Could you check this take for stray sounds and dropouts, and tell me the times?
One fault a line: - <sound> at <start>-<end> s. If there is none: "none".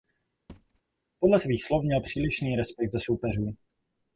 - thud at 0.5-0.8 s